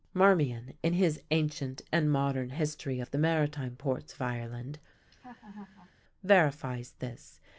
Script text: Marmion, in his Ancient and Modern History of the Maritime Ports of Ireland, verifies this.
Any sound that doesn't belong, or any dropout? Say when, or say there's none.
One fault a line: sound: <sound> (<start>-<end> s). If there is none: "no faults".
sound: laugh (5.1-5.9 s)